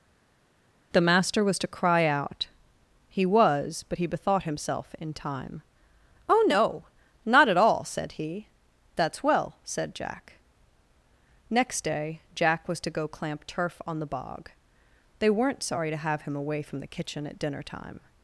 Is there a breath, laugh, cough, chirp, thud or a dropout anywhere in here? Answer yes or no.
no